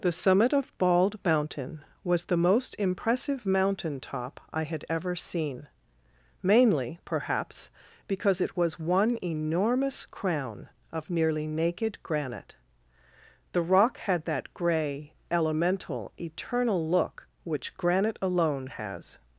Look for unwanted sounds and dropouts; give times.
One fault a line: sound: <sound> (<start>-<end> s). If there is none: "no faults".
no faults